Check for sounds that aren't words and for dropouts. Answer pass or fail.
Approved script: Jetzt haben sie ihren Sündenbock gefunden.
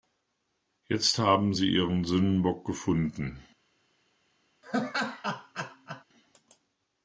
fail